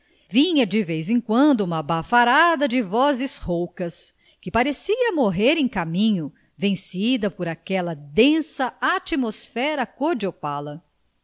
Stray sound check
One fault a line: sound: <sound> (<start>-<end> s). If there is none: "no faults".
no faults